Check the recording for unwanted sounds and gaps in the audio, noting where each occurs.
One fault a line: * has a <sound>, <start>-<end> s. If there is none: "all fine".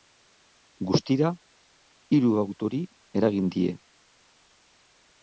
all fine